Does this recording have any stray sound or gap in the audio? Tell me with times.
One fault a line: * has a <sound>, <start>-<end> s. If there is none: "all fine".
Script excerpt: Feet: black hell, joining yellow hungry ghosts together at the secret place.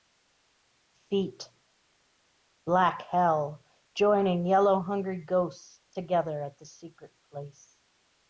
all fine